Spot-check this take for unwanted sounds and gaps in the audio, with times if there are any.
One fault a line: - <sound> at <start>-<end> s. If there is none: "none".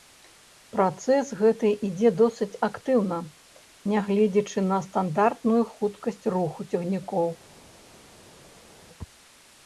none